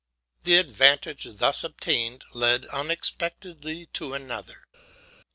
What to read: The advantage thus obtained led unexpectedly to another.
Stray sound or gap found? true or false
false